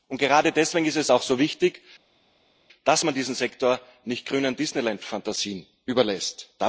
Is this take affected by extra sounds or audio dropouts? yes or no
no